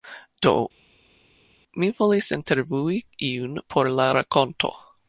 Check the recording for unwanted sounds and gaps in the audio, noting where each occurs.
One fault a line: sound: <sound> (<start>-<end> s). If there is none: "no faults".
no faults